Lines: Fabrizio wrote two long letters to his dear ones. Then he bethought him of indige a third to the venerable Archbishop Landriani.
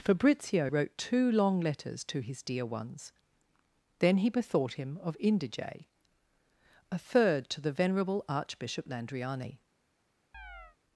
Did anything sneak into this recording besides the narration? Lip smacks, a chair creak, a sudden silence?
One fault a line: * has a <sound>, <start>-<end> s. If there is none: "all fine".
* has a chirp, 10.3-10.8 s